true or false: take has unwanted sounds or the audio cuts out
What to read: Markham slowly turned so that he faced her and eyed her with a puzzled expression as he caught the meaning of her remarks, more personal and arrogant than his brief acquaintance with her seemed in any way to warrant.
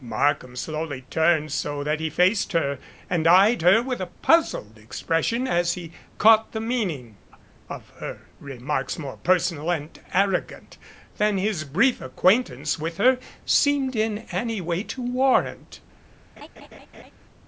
true